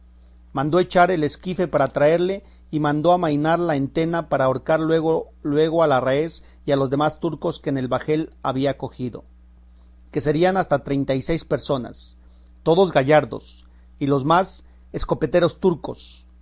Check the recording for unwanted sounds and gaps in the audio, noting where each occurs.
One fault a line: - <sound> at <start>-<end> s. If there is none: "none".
none